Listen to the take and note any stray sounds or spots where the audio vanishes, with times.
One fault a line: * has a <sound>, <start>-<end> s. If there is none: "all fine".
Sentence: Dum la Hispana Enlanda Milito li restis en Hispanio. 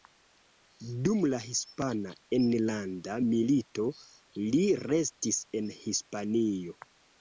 all fine